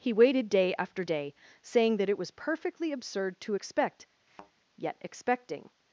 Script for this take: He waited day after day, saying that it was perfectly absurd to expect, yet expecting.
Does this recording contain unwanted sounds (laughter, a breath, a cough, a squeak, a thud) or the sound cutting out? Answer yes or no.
yes